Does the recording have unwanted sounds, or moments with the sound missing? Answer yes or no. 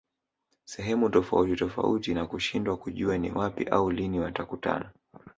no